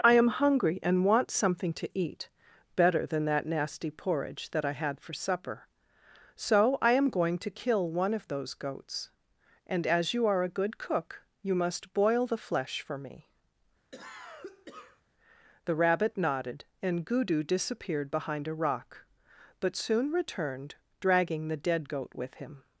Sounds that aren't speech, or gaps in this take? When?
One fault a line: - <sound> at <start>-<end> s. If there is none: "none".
- cough at 13.9-15.0 s